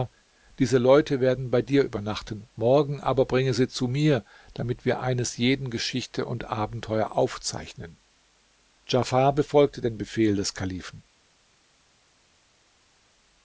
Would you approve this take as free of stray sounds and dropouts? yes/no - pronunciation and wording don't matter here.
yes